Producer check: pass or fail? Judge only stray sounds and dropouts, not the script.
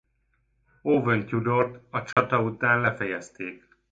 fail